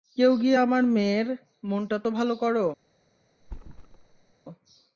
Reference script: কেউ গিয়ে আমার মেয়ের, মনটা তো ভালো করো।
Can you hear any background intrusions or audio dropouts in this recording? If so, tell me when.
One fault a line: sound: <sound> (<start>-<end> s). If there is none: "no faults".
sound: thud (3.4-4.3 s)